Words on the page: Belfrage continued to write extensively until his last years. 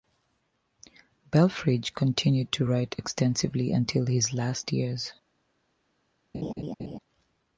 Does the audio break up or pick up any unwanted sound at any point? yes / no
yes